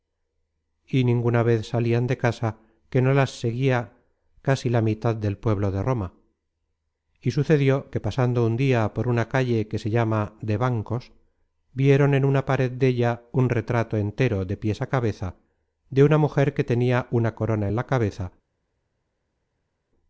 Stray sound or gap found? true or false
false